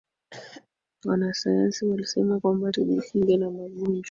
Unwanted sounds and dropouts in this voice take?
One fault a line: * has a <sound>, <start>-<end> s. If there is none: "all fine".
* has a cough, 0.3-0.7 s